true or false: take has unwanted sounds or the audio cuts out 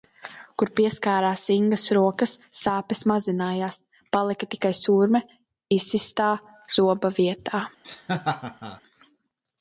true